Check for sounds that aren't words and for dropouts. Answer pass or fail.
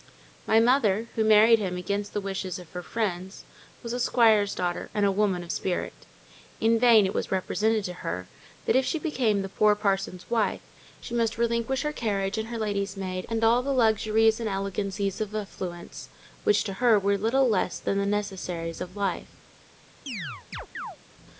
fail